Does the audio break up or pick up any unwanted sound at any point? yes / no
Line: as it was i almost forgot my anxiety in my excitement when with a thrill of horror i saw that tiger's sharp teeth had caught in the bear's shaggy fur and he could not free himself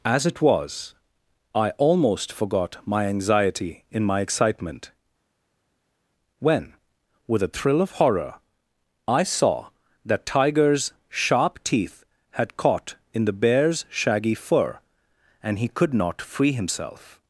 no